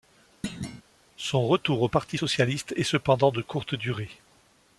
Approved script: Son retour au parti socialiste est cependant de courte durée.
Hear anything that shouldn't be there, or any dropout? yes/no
yes